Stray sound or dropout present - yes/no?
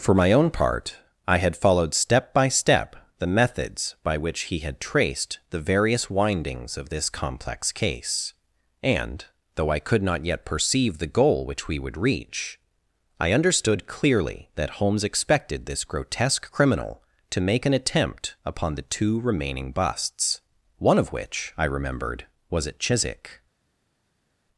no